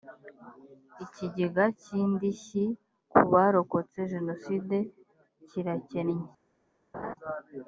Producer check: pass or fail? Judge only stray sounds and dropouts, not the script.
fail